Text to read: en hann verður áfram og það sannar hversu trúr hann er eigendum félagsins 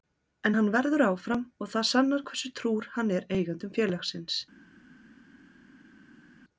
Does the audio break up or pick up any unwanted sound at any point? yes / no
no